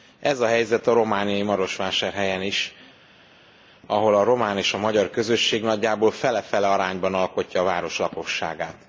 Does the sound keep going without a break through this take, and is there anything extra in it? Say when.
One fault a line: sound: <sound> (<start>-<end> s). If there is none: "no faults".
no faults